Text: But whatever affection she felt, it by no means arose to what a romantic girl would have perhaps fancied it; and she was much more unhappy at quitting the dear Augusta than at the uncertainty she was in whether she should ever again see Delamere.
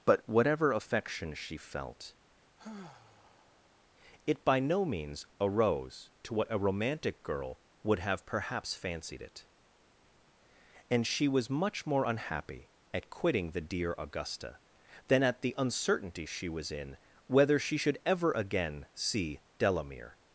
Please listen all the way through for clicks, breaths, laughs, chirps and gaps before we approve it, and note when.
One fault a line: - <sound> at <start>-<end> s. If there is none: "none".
- sigh at 2.6-3.8 s